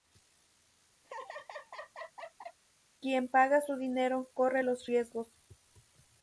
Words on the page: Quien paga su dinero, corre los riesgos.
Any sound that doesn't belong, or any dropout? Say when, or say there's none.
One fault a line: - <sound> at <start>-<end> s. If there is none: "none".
- laugh at 1.0-2.6 s